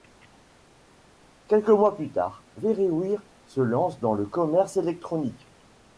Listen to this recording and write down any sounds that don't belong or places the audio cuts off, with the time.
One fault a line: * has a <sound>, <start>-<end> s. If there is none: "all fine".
all fine